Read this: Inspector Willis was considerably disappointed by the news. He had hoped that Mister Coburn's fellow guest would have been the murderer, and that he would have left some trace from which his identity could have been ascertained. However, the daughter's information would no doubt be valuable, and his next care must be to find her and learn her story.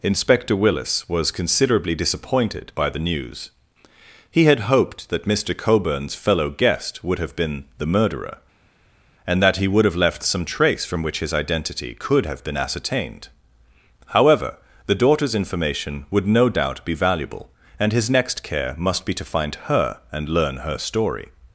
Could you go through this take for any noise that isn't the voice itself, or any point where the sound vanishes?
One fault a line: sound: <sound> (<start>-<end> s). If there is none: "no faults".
no faults